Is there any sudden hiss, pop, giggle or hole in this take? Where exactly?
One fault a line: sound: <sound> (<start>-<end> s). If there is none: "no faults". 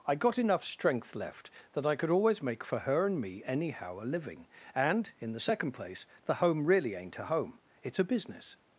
no faults